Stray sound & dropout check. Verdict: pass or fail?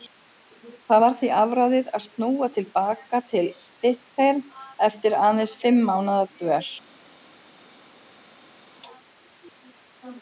pass